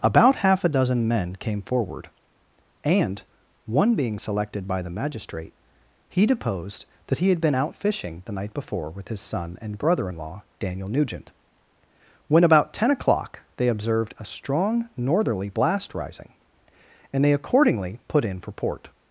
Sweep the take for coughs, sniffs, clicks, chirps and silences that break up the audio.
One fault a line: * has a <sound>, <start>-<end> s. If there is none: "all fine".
all fine